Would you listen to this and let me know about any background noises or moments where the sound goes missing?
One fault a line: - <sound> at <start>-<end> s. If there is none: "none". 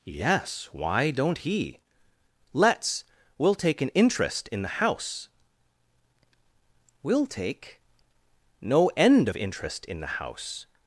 none